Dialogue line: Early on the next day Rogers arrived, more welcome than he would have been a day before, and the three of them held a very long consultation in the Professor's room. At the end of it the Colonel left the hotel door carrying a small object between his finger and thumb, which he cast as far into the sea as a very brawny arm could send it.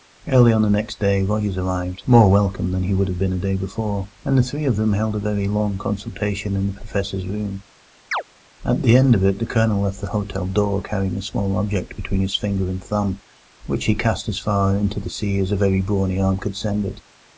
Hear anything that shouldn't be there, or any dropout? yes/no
yes